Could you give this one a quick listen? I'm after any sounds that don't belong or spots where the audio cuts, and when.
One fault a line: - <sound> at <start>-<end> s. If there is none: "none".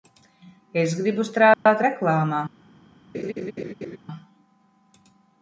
- dropout at 1.5-1.7 s
- laugh at 3.1-4.0 s